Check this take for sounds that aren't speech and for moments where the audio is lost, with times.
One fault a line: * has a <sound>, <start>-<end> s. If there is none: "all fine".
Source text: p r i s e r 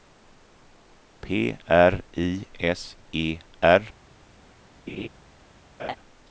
* has a laugh, 4.9-5.1 s
* has a laugh, 5.8-6.0 s